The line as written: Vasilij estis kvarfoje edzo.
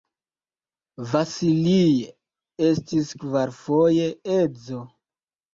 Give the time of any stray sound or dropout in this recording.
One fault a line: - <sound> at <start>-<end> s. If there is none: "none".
none